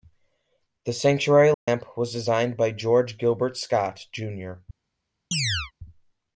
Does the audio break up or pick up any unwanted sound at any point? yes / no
yes